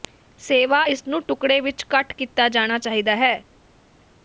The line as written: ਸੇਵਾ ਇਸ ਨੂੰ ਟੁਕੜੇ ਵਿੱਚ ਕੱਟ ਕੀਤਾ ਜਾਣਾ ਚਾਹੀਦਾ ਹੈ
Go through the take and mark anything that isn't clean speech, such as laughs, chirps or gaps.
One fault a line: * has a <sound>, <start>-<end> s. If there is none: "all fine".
all fine